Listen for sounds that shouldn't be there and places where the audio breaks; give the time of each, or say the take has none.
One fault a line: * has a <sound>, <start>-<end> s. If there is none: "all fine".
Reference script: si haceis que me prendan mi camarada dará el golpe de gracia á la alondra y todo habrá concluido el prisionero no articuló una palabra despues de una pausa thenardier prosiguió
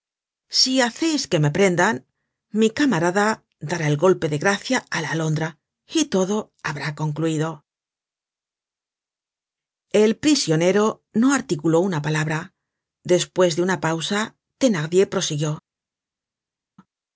all fine